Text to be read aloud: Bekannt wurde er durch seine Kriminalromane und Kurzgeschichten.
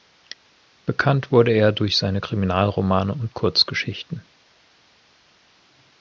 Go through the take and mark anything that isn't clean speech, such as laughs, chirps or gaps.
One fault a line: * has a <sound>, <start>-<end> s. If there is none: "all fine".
all fine